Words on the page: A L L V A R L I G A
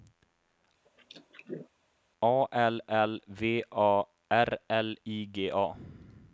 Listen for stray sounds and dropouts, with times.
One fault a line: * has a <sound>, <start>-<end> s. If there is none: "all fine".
* has a throat clearing, 0.9-1.7 s